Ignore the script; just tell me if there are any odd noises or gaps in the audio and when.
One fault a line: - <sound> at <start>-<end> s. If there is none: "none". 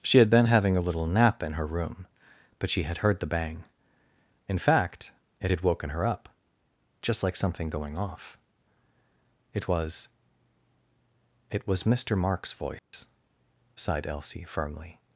- dropout at 12.8-12.9 s